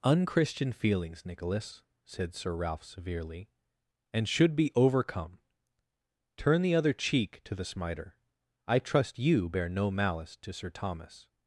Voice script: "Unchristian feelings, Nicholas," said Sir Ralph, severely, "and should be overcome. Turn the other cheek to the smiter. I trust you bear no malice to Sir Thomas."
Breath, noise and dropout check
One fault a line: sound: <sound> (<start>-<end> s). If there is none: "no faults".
no faults